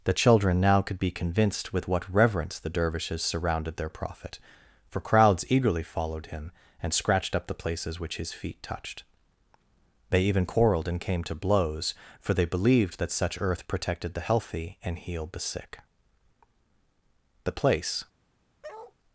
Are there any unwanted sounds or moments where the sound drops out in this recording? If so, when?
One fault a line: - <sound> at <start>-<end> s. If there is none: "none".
- bark at 18.6-18.9 s